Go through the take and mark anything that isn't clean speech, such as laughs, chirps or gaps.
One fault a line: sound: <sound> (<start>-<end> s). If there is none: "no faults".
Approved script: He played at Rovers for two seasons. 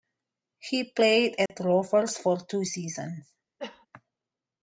sound: dropout (1.5-1.5 s)
sound: cough (3.6-3.9 s)